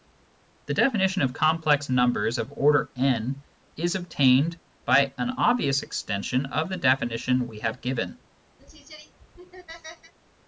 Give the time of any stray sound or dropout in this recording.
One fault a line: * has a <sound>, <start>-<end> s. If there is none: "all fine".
* has a laugh, 8.6-10.1 s